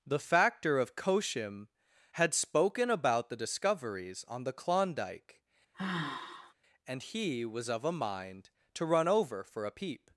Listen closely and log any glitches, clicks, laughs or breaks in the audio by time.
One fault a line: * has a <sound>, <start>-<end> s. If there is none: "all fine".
* has a sigh, 5.7-6.5 s